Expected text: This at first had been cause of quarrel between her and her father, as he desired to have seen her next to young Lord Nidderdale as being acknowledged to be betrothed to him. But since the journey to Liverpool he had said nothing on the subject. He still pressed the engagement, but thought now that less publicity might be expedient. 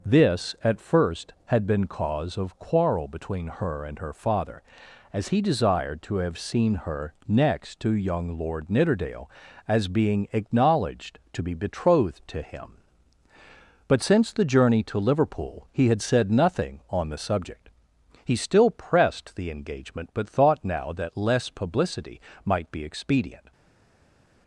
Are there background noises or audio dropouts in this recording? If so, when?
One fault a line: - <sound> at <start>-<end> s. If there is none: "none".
none